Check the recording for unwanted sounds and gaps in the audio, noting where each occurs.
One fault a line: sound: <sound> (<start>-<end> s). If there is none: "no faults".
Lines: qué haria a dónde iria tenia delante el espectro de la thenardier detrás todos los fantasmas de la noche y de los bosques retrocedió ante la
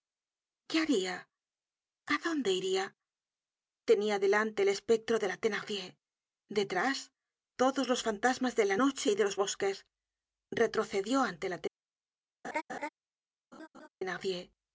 sound: laugh (12.4-12.9 s)
sound: laugh (13.5-13.9 s)